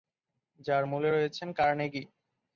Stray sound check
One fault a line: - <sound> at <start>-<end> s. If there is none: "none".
none